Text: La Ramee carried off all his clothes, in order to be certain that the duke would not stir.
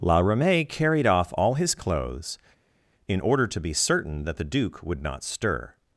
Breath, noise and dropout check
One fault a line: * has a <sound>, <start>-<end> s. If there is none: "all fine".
all fine